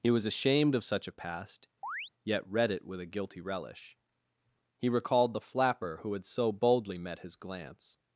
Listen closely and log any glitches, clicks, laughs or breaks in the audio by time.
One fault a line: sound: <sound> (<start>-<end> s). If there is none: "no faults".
sound: chirp (1.8-2.1 s)